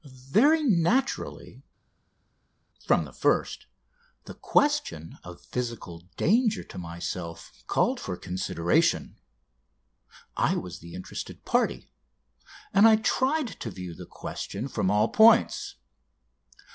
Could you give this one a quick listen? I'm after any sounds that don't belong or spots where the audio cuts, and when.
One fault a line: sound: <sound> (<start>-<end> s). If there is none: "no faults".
no faults